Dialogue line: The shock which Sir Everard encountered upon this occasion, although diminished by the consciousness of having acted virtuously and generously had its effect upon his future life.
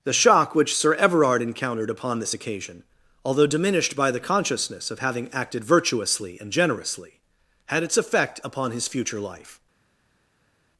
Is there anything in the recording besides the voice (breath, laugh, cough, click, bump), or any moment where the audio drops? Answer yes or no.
no